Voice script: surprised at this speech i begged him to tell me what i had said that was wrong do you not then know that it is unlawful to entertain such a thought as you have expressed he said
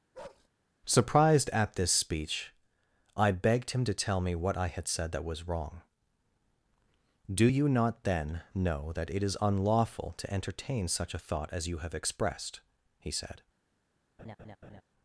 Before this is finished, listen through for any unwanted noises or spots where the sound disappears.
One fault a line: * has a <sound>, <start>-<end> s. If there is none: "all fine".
* has a bark, 0.1-0.5 s
* has a laugh, 14.2-14.8 s